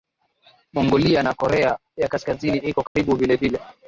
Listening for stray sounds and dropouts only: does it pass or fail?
fail